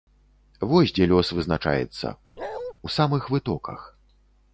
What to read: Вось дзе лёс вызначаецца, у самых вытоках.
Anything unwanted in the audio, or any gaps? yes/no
yes